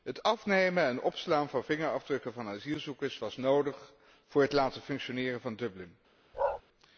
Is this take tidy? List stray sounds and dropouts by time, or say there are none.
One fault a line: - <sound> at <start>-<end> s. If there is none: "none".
- bark at 6.3-6.6 s